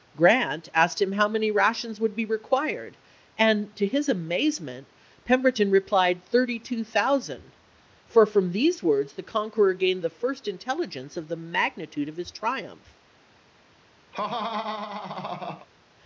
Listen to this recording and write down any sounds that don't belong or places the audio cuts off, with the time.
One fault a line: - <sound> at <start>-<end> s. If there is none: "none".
- laugh at 14.1-15.7 s